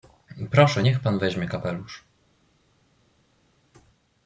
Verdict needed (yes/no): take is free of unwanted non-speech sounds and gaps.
yes